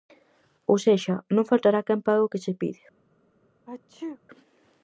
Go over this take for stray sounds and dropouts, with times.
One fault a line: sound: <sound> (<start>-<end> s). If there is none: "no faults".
sound: sneeze (3.7-4.2 s)